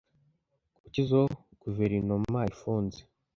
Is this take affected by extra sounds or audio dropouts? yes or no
no